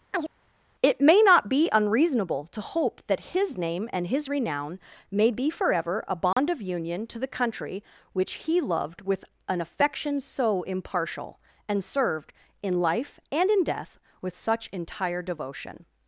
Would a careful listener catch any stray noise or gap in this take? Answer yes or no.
yes